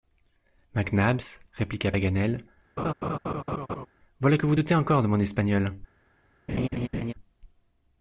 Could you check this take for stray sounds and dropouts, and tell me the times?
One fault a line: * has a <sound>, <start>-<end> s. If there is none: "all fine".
* has a laugh, 2.8-3.9 s
* has a laugh, 6.5-7.1 s